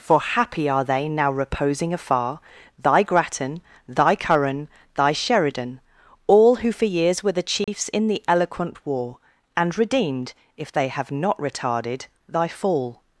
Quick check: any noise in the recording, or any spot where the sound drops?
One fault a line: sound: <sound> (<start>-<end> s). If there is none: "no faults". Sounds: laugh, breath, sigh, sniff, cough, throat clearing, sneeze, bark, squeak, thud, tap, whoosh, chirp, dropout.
sound: dropout (7.6-7.7 s)